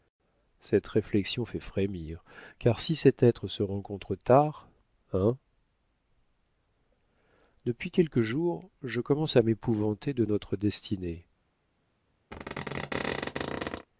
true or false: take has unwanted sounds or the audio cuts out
true